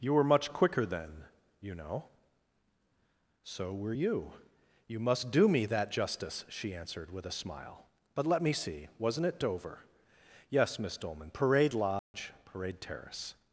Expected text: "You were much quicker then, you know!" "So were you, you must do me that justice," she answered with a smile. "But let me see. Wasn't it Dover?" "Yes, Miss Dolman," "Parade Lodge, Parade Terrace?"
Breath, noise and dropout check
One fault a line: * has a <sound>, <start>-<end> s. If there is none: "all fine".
* has a dropout, 12.0-12.1 s